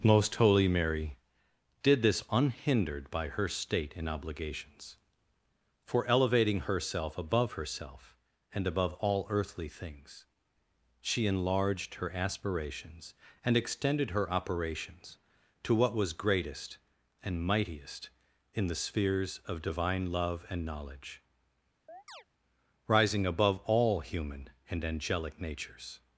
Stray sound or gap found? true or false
true